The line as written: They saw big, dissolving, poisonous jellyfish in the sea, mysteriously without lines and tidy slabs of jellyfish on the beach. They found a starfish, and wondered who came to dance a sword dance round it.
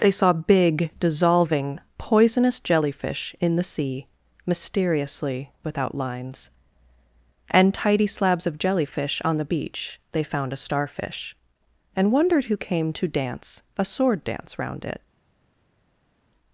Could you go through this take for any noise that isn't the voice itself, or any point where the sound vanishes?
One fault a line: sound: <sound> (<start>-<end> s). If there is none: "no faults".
no faults